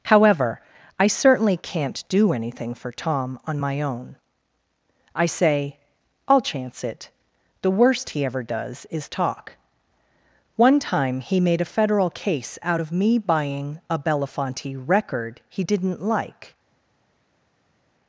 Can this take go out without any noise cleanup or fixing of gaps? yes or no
yes